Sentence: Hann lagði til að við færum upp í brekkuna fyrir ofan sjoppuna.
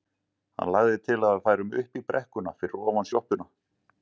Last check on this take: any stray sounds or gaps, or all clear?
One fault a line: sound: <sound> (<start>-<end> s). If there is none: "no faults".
no faults